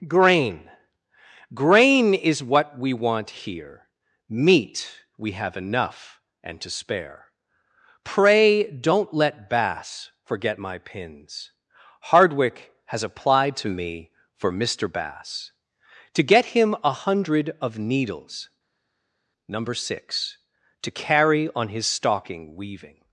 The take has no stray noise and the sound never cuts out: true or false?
true